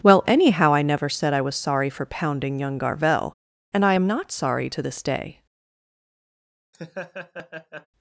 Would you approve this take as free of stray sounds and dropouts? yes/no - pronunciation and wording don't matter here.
no